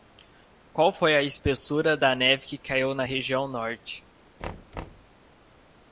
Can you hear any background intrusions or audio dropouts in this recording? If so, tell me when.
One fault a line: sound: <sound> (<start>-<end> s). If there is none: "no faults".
sound: thud (4.4-5.1 s)